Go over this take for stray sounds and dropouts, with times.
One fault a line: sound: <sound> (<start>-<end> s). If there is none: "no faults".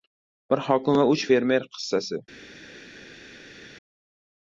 no faults